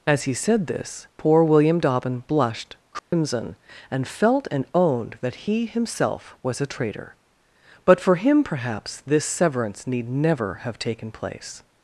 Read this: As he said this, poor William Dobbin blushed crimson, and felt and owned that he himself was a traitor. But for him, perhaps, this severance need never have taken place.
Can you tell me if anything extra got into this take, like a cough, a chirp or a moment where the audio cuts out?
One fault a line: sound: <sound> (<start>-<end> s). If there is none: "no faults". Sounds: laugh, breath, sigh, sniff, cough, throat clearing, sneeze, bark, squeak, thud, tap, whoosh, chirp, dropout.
sound: dropout (3.0-3.1 s)